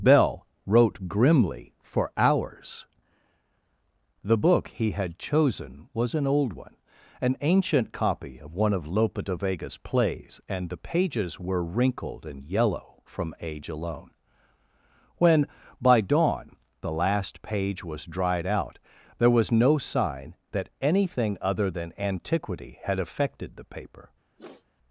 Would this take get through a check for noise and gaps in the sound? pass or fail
fail